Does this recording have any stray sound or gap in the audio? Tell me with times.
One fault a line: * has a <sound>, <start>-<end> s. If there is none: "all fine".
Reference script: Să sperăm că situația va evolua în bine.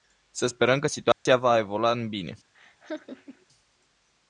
* has a dropout, 1.1-1.3 s
* has a laugh, 2.5-3.5 s